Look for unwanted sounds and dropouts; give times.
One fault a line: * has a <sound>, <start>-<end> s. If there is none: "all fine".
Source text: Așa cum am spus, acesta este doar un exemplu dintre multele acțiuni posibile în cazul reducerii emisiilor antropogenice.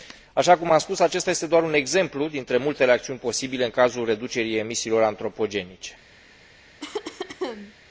* has a cough, 6.8-7.7 s